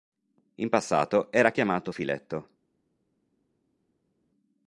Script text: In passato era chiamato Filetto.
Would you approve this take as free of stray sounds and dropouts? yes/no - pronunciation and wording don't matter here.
yes